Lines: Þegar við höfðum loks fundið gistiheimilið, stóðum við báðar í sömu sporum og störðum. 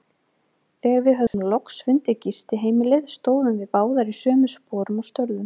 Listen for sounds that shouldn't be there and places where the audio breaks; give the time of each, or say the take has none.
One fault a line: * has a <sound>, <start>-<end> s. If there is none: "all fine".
* has a dropout, 1.3-1.3 s